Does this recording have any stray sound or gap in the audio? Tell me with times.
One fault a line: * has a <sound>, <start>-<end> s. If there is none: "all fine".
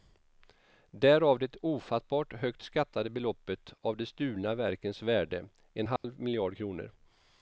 * has a dropout, 6.0-6.0 s